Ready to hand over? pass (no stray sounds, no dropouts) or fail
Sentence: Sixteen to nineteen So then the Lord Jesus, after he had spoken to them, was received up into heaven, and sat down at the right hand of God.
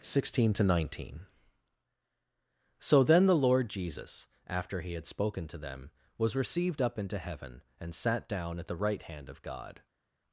pass